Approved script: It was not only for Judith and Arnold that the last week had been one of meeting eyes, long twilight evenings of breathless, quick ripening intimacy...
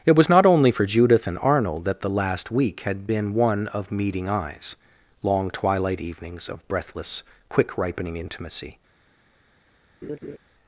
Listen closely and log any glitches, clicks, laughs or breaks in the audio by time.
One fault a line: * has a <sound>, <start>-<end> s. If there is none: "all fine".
* has a laugh, 10.0-10.4 s